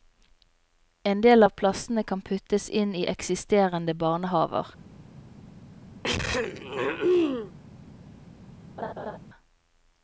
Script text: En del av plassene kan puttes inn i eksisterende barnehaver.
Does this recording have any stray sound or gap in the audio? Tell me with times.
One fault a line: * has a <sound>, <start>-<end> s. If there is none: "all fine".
* has a throat clearing, 6.0-7.5 s
* has a laugh, 8.8-9.2 s